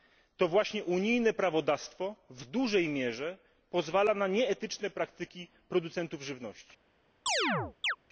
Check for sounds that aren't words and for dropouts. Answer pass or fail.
fail